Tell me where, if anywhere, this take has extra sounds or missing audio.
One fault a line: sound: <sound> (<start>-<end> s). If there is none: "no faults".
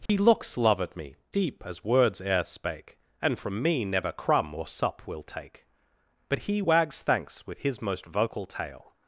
sound: dropout (0.1-0.1 s)